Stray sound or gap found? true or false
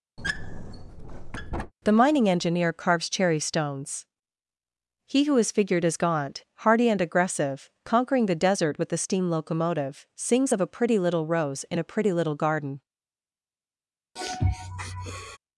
true